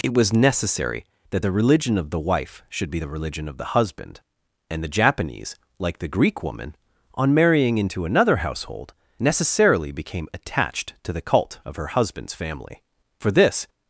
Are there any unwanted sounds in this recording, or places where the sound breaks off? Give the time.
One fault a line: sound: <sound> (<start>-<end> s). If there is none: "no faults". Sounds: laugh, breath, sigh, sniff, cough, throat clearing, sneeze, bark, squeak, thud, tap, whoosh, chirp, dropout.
no faults